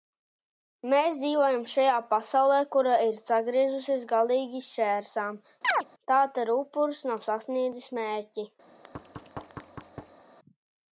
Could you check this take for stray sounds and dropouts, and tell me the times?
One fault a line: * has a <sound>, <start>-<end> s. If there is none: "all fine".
* has a chirp, 5.6-5.8 s
* has a thud, 8.7-10.2 s